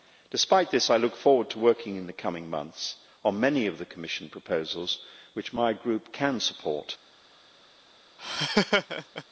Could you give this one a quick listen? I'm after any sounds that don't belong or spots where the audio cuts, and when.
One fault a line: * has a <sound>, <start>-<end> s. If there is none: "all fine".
* has a laugh, 8.2-9.2 s